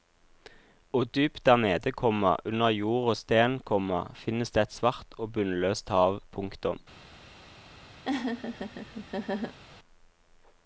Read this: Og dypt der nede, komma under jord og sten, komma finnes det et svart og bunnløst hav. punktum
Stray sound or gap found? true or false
true